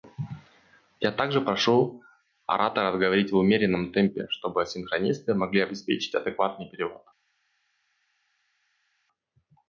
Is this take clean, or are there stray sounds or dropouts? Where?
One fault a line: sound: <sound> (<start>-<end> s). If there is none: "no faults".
no faults